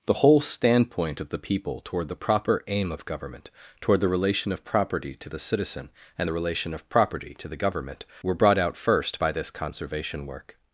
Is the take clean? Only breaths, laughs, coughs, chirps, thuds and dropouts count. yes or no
yes